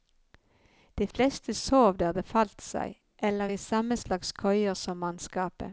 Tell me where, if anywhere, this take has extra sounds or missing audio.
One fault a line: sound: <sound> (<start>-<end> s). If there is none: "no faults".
no faults